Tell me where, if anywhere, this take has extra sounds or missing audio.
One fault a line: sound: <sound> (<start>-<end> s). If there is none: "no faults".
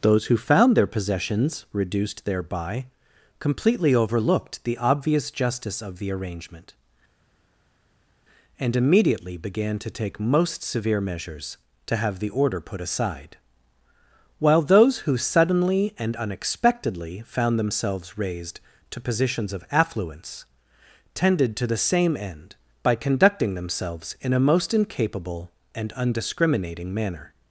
no faults